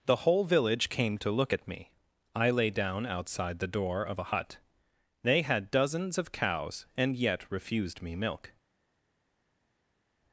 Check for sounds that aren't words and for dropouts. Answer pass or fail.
pass